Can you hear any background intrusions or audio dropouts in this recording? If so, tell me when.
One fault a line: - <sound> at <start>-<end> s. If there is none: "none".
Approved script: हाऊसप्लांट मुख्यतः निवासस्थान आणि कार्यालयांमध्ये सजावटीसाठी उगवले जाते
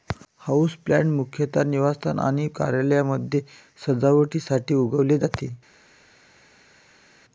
none